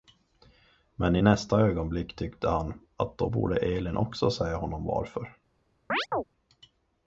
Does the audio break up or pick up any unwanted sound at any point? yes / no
yes